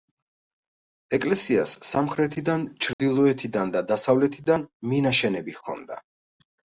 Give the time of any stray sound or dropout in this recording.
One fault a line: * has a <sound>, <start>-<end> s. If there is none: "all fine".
* has a dropout, 2.9-3.0 s